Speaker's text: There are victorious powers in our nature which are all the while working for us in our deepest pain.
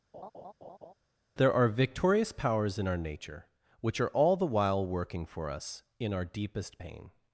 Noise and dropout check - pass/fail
fail